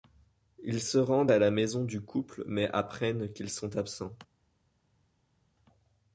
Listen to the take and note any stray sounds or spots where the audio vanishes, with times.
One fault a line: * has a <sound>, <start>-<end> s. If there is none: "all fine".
all fine